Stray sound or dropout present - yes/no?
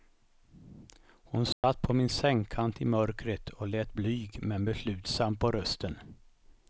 yes